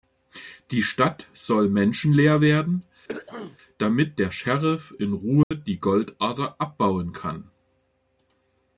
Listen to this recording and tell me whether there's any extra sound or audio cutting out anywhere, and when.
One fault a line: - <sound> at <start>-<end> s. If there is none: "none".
- throat clearing at 3.1-3.6 s
- dropout at 5.4-5.5 s